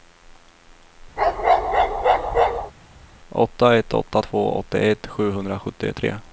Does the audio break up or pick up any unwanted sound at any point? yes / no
yes